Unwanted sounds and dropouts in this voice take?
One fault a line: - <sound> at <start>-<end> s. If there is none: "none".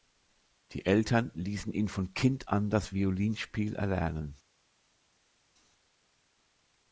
none